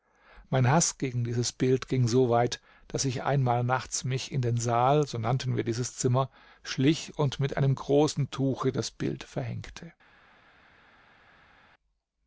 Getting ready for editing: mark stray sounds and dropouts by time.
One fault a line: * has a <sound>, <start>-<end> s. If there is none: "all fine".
all fine